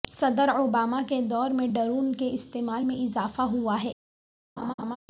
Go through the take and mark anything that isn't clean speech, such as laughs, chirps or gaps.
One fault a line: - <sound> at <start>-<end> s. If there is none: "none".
- laugh at 4.6-5.0 s